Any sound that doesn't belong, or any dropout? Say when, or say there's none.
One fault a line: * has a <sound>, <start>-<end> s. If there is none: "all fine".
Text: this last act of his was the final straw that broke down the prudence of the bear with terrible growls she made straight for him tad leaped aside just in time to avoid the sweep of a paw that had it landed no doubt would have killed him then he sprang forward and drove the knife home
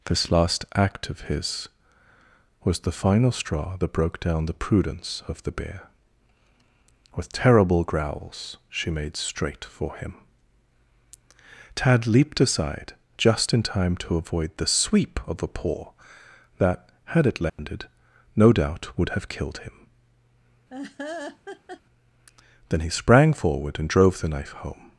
* has a dropout, 17.5-17.6 s
* has a laugh, 20.7-21.8 s